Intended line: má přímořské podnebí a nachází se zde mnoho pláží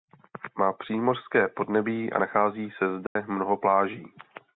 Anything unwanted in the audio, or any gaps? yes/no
yes